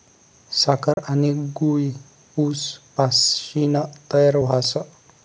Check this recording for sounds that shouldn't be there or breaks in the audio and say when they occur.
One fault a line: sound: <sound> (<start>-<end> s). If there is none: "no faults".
sound: dropout (0.9-1.0 s)